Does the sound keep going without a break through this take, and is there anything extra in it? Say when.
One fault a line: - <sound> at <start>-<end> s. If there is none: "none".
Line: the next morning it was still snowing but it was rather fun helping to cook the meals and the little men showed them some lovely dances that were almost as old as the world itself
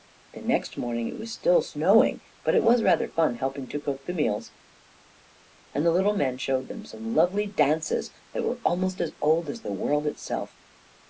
none